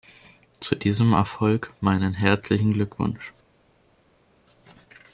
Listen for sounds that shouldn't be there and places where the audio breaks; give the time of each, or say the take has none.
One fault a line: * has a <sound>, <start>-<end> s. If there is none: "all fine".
all fine